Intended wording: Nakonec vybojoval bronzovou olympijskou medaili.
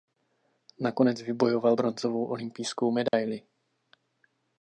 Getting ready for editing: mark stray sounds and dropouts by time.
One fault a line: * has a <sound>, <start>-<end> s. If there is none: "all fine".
* has a dropout, 3.1-3.1 s